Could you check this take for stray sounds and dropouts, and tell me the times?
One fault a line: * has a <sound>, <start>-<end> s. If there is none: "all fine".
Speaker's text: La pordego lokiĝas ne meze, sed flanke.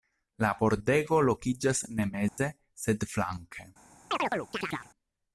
* has a dropout, 2.3-2.4 s
* has a chirp, 4.1-4.9 s